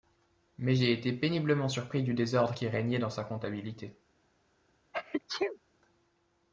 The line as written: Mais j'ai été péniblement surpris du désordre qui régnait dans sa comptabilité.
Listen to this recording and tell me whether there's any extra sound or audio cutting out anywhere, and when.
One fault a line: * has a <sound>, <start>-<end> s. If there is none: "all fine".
* has a sneeze, 4.9-5.6 s